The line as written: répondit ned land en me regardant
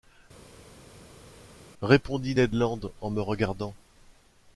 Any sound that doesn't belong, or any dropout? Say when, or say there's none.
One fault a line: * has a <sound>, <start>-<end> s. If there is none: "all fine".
all fine